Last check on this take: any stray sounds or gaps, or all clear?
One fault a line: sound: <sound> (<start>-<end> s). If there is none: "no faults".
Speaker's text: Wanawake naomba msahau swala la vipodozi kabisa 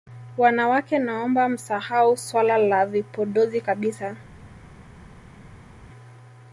no faults